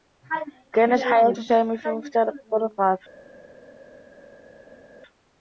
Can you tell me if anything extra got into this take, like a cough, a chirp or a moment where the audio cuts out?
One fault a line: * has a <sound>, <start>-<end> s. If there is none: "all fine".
all fine